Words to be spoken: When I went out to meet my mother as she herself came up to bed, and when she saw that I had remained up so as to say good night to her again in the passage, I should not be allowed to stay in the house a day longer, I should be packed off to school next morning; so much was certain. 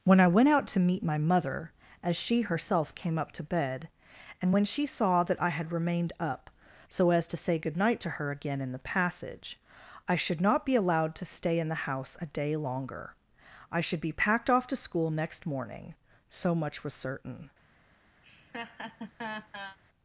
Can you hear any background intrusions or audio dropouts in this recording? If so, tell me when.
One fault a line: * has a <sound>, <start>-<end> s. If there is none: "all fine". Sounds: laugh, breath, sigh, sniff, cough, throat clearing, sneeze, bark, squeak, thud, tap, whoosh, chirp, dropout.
* has a laugh, 18.2-19.8 s